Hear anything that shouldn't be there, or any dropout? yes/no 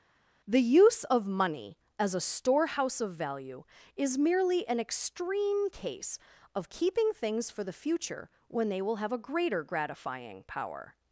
no